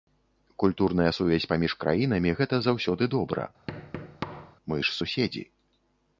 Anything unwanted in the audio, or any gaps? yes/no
yes